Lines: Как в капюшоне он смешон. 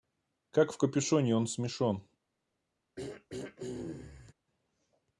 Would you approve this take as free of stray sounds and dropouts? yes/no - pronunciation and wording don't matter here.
no